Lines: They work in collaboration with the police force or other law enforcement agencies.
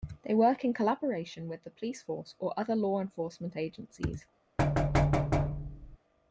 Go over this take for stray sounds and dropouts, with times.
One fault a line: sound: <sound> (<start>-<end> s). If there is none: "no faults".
sound: thud (4.6-6.0 s)